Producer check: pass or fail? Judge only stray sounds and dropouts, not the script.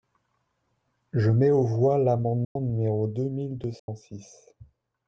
fail